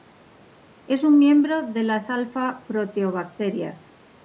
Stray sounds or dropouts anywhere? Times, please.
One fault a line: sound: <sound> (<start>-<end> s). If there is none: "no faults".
no faults